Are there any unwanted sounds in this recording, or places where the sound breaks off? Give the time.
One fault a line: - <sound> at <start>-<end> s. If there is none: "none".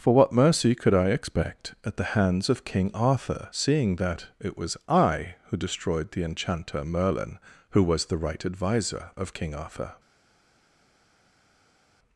none